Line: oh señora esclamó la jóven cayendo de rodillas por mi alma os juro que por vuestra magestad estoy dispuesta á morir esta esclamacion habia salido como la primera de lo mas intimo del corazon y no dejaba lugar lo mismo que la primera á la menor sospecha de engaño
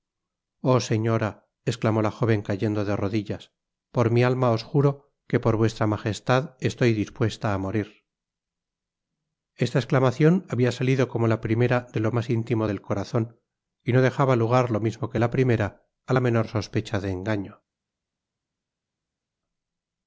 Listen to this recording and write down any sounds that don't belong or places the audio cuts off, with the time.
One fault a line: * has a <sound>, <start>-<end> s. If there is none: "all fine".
all fine